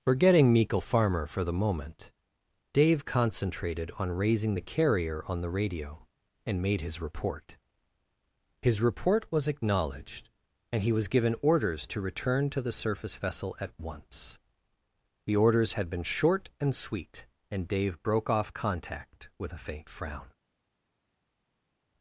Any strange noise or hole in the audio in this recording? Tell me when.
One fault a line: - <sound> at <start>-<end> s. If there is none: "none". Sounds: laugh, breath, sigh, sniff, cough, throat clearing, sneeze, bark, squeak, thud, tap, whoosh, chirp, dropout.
none